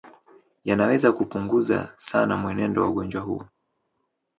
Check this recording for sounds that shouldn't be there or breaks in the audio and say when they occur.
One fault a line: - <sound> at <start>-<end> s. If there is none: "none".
none